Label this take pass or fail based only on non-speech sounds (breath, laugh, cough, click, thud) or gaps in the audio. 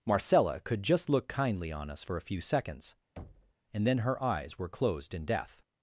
fail